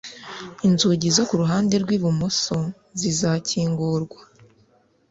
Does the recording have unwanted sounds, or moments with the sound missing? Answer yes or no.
no